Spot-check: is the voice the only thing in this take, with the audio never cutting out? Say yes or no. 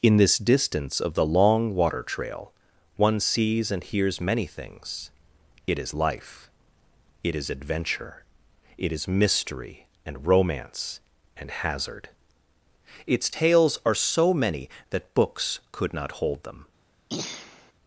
no